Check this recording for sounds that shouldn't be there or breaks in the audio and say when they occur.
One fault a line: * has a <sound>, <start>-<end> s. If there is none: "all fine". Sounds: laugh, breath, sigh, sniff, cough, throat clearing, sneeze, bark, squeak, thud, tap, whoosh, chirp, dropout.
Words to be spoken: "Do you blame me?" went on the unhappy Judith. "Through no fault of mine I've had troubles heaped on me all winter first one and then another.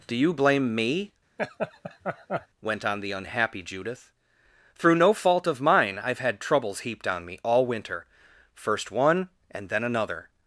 * has a laugh, 1.4-2.5 s